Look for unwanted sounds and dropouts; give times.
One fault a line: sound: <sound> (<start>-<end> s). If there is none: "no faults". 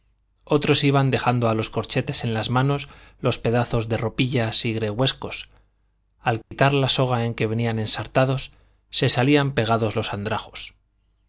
sound: dropout (6.4-6.5 s)